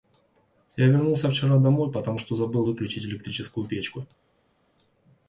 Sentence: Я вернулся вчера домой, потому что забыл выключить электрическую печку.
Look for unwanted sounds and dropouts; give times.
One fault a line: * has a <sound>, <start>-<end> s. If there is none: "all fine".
all fine